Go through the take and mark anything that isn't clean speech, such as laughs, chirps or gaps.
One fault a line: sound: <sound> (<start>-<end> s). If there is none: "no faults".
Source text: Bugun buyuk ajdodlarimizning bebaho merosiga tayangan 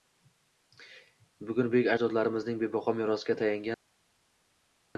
no faults